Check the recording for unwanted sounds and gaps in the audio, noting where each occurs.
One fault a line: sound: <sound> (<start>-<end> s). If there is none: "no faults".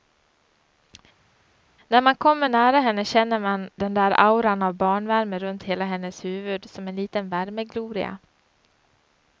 no faults